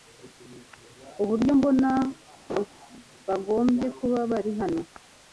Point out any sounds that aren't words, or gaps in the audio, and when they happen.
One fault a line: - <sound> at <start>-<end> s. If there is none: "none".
- laugh at 2.5-2.7 s